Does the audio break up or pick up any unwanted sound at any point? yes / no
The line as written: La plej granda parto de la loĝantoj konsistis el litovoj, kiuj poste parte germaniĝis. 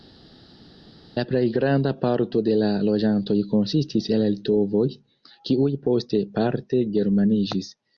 no